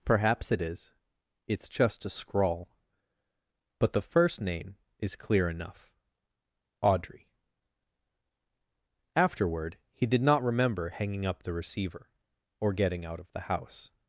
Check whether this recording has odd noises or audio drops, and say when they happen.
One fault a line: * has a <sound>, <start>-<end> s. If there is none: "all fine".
all fine